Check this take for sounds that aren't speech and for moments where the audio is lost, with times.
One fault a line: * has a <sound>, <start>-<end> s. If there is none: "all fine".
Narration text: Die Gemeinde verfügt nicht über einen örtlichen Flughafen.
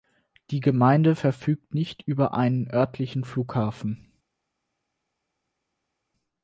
all fine